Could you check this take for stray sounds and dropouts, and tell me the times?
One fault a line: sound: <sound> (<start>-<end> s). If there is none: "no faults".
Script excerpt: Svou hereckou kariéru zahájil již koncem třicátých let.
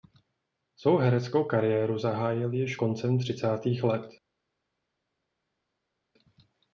no faults